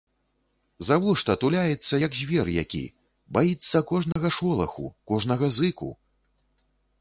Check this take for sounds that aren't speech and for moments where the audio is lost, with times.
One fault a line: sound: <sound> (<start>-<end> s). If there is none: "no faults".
sound: dropout (4.1-4.2 s)